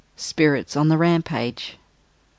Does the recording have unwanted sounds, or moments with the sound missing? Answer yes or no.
no